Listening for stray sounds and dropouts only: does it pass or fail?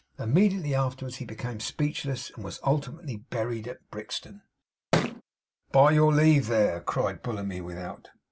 fail